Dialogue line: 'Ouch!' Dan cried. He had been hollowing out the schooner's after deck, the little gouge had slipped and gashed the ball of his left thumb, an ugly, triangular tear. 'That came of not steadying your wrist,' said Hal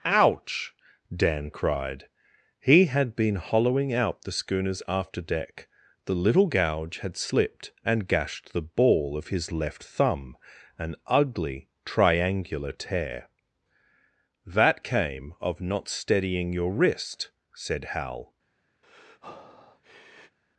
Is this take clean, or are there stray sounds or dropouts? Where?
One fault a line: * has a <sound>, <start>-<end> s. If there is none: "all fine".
* has a breath, 18.8-20.4 s